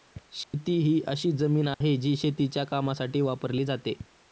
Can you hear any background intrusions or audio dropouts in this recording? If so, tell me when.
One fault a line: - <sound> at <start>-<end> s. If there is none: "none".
- dropout at 0.4-0.5 s
- dropout at 1.7-1.8 s